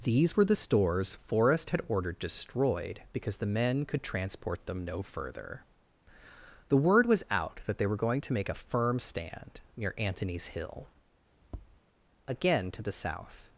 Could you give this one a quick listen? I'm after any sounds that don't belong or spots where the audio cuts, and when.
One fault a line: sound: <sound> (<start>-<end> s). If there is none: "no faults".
sound: tap (11.4-11.8 s)